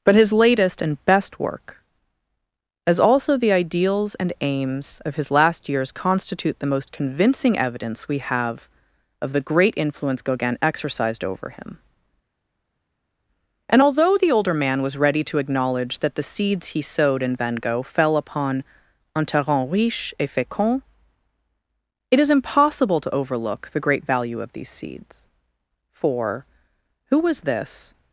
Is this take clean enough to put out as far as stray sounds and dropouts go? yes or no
yes